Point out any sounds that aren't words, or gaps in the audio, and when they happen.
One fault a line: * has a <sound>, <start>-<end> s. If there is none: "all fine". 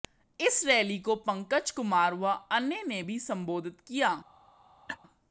* has a laugh, 4.9-5.0 s